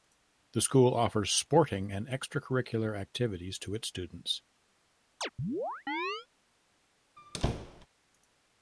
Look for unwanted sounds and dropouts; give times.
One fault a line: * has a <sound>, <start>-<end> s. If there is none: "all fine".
* has a chirp, 5.2-6.3 s
* has a squeak, 7.2-7.9 s